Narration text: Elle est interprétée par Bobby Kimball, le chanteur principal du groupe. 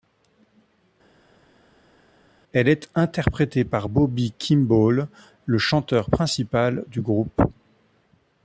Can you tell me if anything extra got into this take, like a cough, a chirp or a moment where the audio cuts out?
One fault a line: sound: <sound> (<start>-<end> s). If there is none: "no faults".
no faults